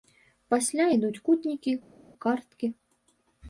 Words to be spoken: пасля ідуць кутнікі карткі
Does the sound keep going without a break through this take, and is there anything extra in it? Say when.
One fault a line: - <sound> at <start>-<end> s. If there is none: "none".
none